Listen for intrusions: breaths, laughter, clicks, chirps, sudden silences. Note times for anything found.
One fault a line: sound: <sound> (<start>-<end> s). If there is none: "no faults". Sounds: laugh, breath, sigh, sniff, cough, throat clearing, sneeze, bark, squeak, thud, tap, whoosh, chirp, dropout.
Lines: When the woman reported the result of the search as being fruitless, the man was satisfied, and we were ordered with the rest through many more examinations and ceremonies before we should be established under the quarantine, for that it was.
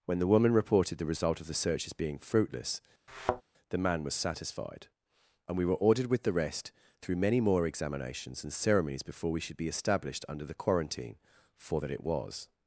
sound: thud (3.1-3.4 s)